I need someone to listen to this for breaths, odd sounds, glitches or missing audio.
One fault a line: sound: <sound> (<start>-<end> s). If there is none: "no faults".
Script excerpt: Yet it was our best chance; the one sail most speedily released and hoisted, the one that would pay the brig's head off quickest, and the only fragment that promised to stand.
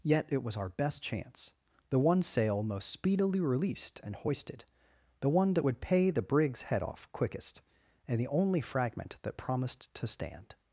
no faults